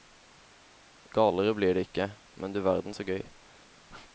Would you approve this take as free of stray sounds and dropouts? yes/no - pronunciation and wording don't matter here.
yes